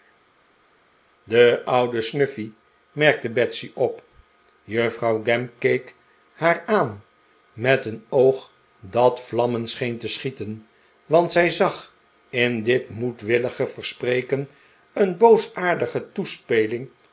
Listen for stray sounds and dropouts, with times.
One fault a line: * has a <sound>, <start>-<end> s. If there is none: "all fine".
all fine